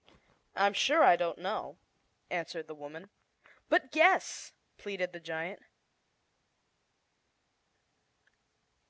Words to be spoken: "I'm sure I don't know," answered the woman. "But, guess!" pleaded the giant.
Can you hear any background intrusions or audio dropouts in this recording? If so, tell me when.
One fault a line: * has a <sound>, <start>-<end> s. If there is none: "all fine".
all fine